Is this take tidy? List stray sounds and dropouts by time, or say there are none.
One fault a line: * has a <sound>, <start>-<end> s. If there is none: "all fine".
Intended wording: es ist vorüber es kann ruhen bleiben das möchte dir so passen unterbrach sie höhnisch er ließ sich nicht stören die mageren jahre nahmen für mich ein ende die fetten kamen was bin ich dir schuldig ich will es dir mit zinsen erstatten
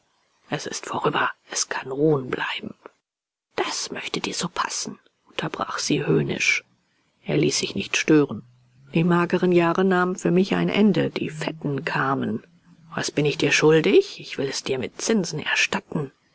all fine